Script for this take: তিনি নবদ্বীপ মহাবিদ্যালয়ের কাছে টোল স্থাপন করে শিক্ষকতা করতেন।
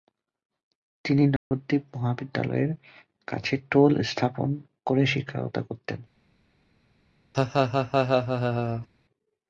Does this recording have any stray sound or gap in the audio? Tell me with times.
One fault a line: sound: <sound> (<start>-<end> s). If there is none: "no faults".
sound: dropout (1.4-1.5 s)
sound: laugh (7.3-8.9 s)